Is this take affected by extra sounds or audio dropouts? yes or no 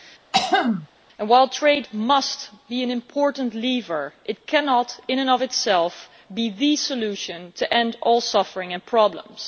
yes